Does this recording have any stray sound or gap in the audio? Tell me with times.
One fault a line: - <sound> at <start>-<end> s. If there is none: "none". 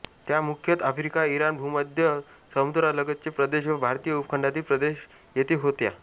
none